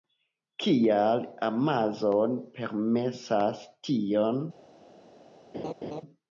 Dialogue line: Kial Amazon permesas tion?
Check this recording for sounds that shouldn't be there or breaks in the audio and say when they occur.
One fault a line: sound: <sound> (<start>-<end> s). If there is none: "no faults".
sound: laugh (5.5-6.0 s)